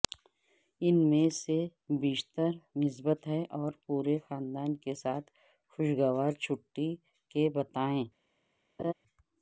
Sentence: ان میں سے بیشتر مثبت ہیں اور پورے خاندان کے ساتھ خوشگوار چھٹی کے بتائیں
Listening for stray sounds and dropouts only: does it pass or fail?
fail